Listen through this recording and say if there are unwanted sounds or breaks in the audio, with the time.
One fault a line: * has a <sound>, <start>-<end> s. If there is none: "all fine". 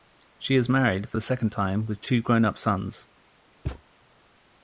* has a thud, 3.7-3.8 s